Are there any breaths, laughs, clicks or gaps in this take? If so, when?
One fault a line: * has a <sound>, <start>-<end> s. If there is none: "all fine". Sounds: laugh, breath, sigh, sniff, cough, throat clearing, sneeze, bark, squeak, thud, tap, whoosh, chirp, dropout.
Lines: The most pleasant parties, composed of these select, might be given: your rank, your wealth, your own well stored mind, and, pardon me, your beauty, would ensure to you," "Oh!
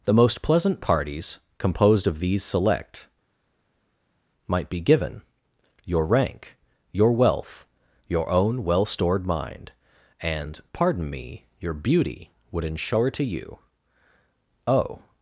all fine